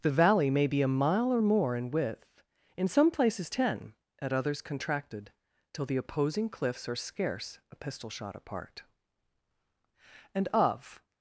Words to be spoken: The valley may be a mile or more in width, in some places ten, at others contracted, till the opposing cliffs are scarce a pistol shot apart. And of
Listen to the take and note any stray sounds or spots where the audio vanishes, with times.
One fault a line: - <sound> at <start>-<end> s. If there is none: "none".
none